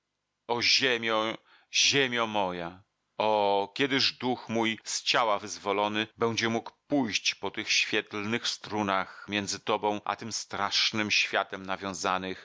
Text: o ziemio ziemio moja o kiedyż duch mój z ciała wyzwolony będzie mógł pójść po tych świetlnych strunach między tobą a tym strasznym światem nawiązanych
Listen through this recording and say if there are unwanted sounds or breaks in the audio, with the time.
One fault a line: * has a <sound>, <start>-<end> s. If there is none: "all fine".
all fine